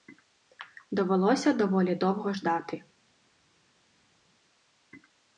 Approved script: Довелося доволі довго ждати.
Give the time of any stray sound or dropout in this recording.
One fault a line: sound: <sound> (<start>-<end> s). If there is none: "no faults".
no faults